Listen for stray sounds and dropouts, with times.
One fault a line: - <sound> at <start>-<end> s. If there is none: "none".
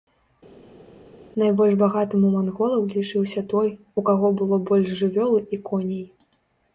none